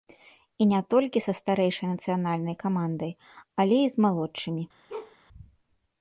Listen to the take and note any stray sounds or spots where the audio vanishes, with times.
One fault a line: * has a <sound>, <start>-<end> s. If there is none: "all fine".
* has a bark, 4.9-5.2 s